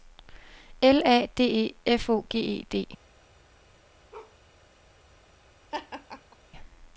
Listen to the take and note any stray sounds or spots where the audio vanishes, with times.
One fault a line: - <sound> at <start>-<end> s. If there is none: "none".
- bark at 4.1-4.4 s
- laugh at 5.7-6.4 s